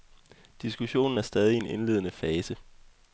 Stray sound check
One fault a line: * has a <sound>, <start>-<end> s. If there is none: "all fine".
all fine